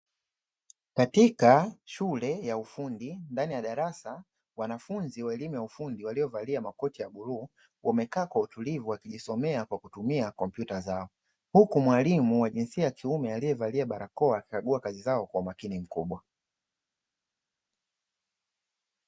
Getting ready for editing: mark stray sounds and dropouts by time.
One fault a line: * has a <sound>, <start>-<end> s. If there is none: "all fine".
all fine